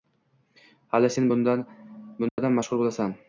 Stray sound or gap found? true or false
true